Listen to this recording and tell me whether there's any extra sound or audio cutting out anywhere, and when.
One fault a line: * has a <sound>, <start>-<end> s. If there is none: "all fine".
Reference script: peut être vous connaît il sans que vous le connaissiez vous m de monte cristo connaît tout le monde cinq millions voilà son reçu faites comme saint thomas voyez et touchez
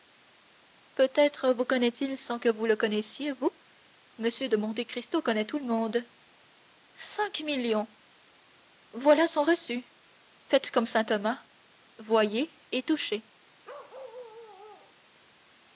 * has a bark, 13.6-15.0 s